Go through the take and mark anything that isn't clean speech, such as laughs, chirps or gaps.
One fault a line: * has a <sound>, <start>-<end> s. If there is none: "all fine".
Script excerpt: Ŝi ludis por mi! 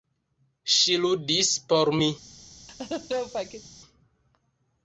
* has a laugh, 2.7-3.7 s